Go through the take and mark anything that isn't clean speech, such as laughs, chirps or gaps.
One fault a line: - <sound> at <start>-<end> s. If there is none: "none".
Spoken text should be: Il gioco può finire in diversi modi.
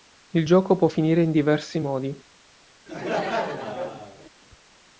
- laugh at 2.9-4.3 s